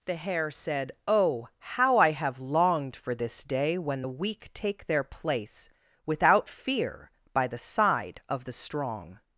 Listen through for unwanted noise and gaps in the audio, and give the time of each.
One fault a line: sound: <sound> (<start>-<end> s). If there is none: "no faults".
no faults